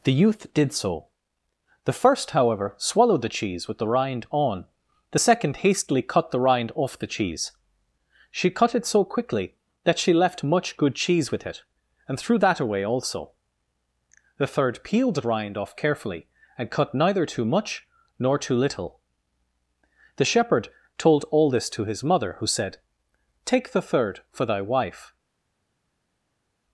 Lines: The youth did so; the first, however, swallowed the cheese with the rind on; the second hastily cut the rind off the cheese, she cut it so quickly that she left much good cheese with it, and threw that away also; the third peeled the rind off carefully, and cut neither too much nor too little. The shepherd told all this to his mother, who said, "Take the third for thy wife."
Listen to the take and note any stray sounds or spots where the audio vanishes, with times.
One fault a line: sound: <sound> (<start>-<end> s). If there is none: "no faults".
no faults